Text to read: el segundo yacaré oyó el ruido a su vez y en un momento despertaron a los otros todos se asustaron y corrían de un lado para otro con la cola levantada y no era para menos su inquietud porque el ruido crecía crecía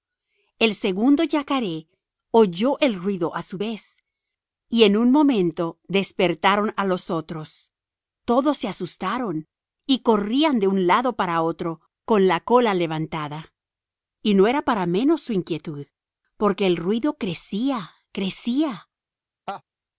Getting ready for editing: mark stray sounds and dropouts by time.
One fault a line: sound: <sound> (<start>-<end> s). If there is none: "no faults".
sound: laugh (19.5-19.6 s)